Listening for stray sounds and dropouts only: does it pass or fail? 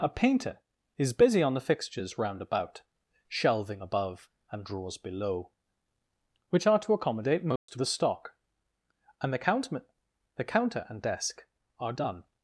fail